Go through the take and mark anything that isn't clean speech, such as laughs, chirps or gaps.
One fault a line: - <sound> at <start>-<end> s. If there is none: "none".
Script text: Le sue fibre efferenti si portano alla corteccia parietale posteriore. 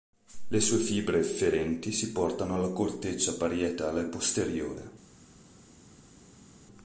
none